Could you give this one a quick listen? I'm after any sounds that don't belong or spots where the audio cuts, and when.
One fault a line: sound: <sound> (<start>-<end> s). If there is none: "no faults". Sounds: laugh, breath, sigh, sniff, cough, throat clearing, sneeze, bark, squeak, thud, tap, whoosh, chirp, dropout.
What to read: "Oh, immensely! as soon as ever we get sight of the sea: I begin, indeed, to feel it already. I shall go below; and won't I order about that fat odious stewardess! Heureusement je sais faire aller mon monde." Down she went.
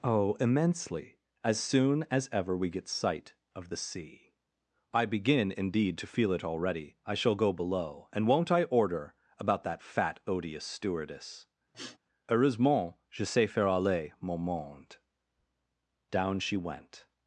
sound: sniff (11.7-12.0 s)